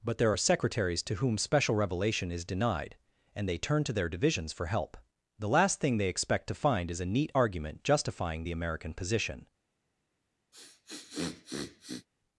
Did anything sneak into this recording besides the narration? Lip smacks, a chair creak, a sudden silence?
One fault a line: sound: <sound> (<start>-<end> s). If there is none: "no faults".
sound: sniff (10.5-12.1 s)